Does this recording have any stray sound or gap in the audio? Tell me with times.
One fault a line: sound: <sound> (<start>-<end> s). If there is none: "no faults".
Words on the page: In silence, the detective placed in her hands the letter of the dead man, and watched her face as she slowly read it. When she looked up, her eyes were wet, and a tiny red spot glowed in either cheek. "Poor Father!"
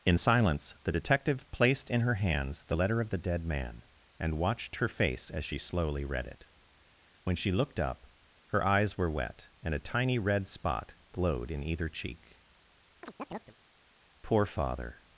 sound: chirp (13.0-13.6 s)